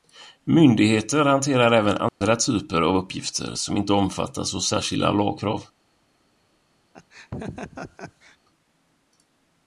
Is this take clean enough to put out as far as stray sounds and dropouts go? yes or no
no